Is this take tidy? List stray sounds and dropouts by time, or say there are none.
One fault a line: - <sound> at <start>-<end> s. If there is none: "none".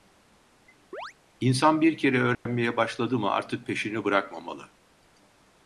- chirp at 0.9-1.1 s
- dropout at 2.3-2.5 s